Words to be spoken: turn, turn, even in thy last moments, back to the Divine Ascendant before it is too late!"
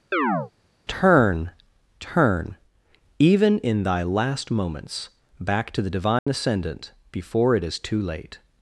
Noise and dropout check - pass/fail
fail